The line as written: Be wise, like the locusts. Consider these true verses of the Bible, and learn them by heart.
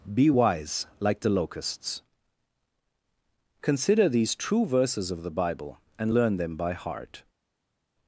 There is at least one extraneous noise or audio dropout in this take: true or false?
false